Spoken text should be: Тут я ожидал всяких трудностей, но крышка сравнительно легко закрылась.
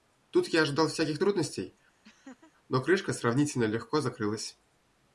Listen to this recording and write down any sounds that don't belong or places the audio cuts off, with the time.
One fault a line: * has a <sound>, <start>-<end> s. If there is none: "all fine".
* has a laugh, 2.0-2.5 s